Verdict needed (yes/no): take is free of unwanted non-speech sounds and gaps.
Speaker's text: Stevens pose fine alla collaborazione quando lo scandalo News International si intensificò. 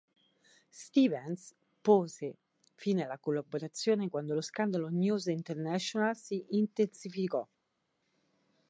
yes